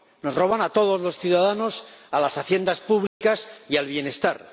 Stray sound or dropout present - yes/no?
yes